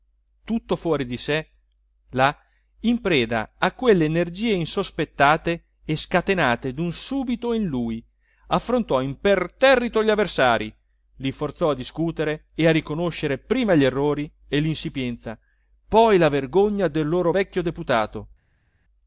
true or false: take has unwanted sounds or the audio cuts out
false